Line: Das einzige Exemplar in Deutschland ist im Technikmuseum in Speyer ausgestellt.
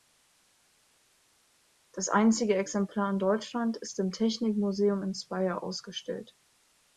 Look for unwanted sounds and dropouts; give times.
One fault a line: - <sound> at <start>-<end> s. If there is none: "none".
none